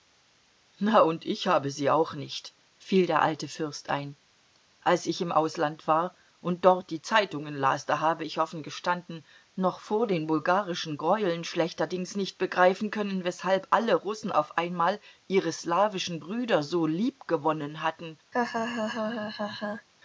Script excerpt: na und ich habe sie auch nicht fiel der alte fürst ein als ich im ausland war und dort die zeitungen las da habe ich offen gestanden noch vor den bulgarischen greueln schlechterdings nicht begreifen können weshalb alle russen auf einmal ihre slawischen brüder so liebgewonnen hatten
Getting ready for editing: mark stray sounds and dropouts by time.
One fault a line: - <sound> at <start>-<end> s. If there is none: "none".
- laugh at 18.3-19.9 s